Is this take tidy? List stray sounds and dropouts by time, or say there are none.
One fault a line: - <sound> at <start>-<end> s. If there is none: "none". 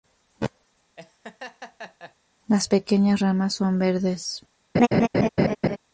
- laugh at 1.0-2.1 s
- laugh at 4.7-5.8 s